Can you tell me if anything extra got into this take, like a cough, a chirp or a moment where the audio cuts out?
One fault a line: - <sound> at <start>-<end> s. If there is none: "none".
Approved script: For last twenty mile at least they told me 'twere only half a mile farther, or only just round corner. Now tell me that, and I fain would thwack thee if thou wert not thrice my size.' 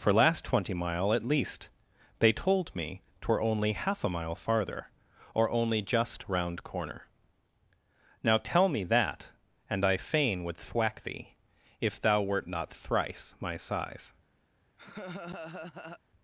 - laugh at 14.8-16.0 s